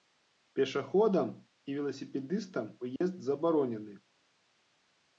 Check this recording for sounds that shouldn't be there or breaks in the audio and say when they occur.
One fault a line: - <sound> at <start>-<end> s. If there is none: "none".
- dropout at 3.0-3.0 s